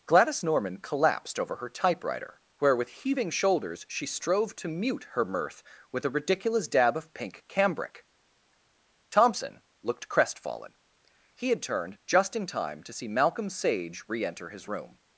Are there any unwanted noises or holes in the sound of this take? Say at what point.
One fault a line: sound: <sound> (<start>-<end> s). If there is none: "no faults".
no faults